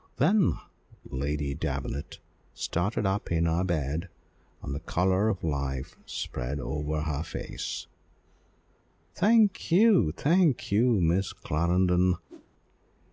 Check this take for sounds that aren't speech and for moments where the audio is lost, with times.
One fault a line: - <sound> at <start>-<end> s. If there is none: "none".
- whoosh at 12.3-12.5 s